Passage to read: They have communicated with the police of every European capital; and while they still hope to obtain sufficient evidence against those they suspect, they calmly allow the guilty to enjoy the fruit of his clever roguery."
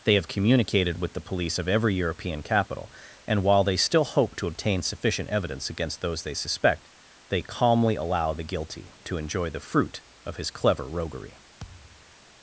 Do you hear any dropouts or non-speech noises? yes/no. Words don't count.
yes